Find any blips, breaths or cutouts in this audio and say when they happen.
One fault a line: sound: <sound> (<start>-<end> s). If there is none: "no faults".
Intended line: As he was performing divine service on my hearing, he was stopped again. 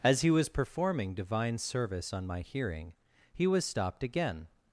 no faults